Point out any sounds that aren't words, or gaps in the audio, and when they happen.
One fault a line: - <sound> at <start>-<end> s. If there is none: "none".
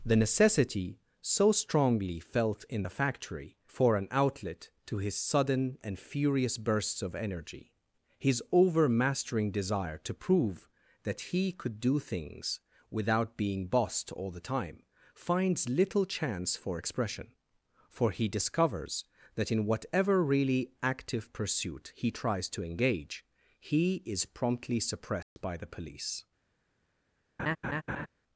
- dropout at 25.2-25.4 s
- laugh at 27.4-28.1 s